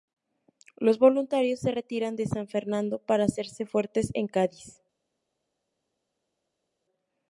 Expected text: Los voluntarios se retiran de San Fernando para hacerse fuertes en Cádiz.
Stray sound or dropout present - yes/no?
no